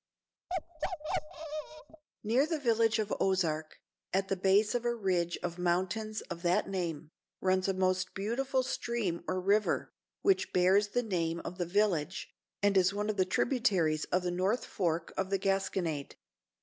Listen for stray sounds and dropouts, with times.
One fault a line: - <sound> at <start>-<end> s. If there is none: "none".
- bark at 0.5-2.0 s